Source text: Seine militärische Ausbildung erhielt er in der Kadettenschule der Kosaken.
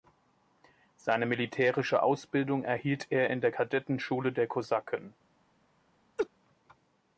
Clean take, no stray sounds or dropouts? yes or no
no